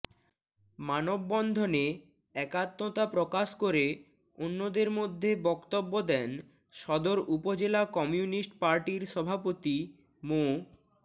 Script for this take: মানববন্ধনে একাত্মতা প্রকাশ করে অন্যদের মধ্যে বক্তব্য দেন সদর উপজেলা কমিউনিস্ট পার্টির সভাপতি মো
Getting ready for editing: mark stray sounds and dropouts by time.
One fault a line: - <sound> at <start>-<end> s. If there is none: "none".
none